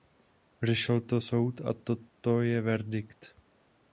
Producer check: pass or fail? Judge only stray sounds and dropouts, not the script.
pass